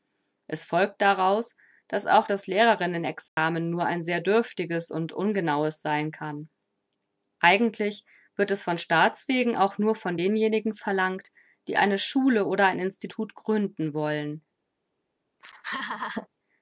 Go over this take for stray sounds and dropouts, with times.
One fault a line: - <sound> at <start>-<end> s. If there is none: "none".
- dropout at 3.3-3.4 s
- laugh at 15.4-16.3 s